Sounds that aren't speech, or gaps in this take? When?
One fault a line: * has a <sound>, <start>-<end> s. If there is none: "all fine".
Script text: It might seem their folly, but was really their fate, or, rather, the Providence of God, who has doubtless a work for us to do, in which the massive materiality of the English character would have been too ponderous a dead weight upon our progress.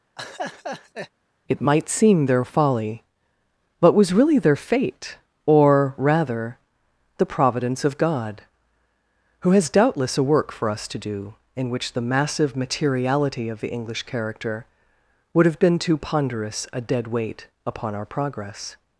* has a laugh, 0.2-1.1 s